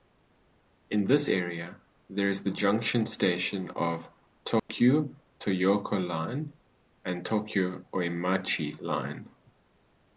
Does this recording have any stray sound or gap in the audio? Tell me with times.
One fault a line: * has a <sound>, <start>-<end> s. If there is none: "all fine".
* has a dropout, 4.6-4.7 s